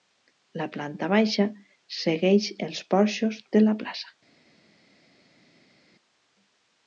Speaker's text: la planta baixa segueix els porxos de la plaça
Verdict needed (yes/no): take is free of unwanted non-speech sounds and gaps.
yes